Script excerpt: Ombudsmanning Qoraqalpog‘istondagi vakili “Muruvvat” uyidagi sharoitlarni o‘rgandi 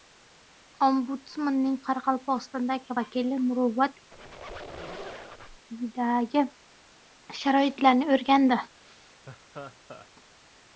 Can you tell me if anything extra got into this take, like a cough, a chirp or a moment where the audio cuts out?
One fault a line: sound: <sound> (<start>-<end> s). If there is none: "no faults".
sound: squeak (4.1-5.7 s)
sound: laugh (8.8-10.1 s)